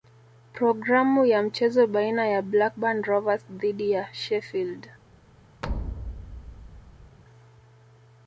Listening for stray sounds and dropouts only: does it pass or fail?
fail